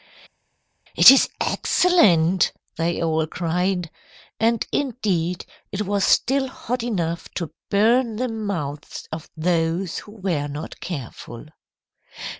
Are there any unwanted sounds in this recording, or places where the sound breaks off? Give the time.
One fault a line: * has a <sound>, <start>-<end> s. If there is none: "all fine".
all fine